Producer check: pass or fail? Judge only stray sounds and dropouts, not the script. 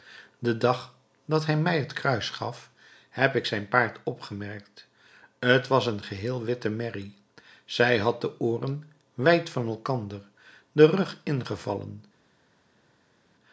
pass